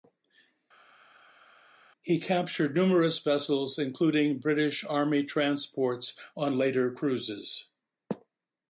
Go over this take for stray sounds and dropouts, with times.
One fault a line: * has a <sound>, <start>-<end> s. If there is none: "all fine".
all fine